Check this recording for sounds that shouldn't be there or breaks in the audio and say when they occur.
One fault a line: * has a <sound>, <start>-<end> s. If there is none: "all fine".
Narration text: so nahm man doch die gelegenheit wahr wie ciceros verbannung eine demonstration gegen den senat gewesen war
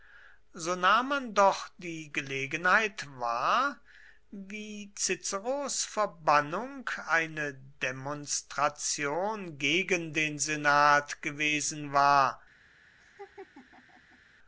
* has a laugh, 13.0-14.2 s